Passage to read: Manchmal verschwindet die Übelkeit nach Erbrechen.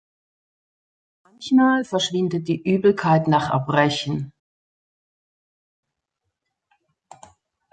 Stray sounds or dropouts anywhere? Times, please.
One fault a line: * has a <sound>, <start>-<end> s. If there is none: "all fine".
all fine